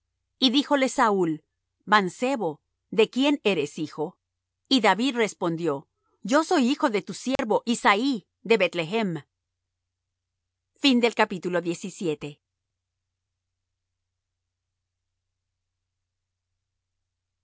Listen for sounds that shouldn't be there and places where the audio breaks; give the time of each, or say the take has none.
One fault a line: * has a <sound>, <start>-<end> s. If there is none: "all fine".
* has a dropout, 7.4-7.4 s